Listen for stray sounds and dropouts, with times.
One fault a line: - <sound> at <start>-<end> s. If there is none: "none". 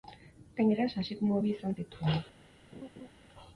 - laugh at 2.7-3.1 s